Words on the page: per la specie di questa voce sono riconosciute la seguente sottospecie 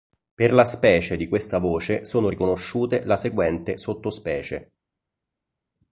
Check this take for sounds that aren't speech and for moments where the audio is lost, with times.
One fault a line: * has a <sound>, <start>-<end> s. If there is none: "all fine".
all fine